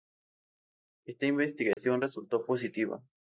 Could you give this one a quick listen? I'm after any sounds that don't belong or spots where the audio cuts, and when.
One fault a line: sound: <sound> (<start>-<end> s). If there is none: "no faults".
sound: dropout (1.7-1.8 s)